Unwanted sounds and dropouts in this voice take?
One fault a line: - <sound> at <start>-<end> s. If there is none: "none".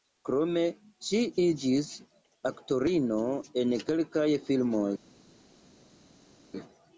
none